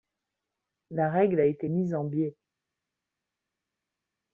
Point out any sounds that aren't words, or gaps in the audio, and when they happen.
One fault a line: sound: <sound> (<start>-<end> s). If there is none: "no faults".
no faults